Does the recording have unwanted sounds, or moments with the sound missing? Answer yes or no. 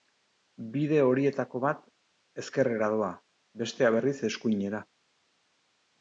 no